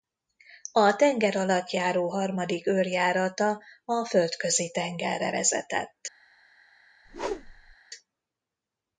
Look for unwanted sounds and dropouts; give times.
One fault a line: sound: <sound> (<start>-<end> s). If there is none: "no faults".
sound: whoosh (7.0-7.8 s)